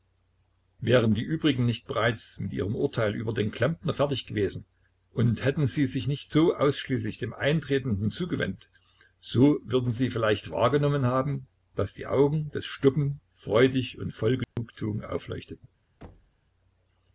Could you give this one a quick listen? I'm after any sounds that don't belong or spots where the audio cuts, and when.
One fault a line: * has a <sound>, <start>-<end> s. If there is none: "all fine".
* has a dropout, 14.4-14.6 s
* has a thud, 16.0-16.4 s